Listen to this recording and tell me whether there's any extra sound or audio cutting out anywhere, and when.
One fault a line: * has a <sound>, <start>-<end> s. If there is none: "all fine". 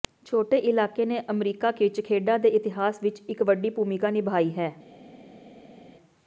all fine